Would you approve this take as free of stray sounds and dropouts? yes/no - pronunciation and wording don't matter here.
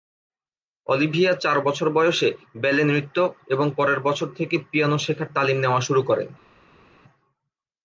yes